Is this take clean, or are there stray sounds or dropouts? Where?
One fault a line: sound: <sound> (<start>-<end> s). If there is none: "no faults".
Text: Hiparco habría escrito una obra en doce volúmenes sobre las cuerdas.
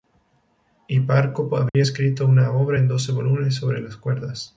sound: dropout (1.7-1.7 s)